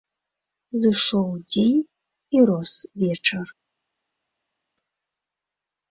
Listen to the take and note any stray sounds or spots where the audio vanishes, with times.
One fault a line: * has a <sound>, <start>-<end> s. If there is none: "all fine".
all fine